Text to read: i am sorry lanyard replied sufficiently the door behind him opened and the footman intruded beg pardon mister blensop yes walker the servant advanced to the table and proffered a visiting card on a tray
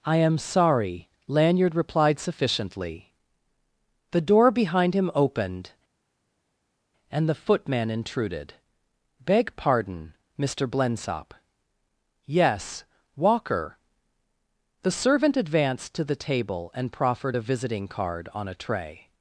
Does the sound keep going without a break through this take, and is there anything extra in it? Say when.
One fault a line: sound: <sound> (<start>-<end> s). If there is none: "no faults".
no faults